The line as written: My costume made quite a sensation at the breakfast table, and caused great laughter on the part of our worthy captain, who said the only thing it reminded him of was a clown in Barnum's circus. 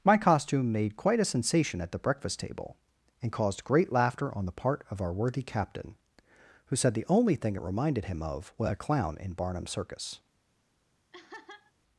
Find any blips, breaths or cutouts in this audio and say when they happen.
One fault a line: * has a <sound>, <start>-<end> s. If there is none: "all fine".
* has a laugh, 11.1-11.7 s